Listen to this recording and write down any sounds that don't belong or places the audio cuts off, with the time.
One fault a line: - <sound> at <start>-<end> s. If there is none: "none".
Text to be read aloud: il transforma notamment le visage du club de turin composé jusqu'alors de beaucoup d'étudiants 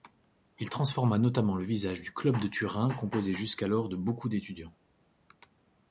none